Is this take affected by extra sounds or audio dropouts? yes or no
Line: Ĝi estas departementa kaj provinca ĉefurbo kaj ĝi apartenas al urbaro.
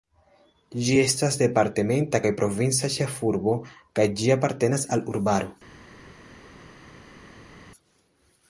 no